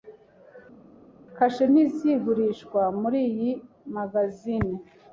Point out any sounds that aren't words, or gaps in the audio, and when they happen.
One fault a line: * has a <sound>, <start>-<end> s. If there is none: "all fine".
all fine